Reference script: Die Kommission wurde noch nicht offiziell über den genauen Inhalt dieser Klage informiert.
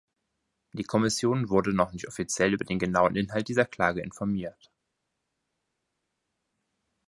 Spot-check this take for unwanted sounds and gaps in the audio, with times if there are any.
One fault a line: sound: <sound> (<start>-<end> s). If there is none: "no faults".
no faults